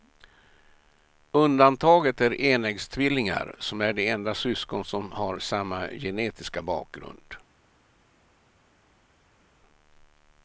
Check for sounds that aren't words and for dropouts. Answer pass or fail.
pass